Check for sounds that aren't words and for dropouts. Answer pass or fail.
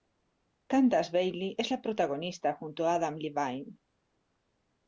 pass